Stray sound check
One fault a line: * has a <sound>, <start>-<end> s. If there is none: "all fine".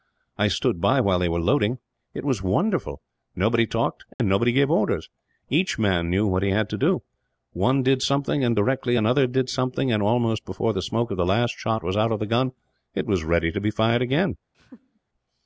* has a dropout, 4.1-4.2 s
* has a laugh, 14.5-15.0 s